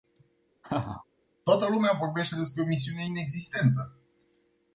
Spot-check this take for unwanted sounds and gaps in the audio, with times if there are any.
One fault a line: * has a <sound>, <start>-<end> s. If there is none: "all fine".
* has a laugh, 0.6-1.0 s